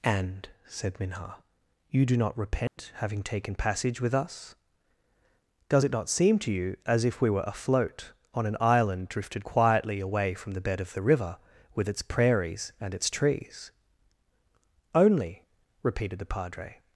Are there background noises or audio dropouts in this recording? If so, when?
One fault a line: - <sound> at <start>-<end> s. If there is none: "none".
- dropout at 2.7-2.8 s